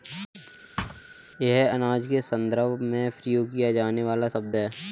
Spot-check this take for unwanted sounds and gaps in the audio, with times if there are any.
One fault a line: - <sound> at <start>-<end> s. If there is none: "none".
- thud at 0.8-1.0 s